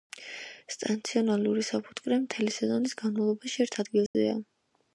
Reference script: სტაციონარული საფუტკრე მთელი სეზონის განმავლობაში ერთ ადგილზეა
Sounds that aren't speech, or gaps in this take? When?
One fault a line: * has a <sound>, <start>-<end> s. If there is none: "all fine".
* has a dropout, 4.1-4.1 s